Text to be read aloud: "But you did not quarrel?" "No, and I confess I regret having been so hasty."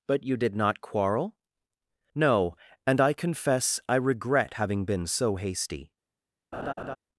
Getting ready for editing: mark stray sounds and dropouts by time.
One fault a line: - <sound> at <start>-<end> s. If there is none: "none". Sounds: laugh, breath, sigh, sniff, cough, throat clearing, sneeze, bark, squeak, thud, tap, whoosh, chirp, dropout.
- laugh at 6.5-7.0 s